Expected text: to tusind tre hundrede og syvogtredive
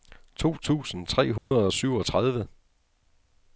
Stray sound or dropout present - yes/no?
yes